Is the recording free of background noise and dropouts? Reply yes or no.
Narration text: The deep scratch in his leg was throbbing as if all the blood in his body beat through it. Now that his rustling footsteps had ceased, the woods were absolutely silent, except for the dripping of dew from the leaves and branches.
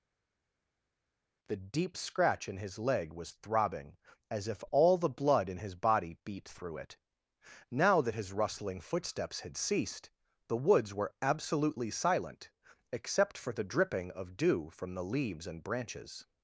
yes